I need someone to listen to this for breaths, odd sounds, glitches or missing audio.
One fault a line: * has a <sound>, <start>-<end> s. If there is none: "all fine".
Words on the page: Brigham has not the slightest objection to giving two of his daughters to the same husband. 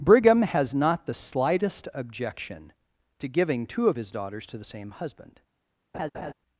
* has a laugh, 5.9-6.3 s